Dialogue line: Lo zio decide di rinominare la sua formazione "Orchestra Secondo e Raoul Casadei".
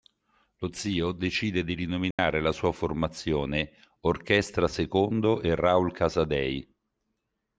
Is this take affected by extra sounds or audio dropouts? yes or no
yes